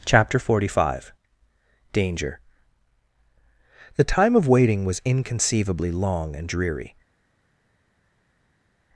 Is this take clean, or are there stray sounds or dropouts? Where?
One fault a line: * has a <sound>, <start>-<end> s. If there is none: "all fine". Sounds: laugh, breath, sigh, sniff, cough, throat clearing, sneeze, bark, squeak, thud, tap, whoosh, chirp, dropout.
all fine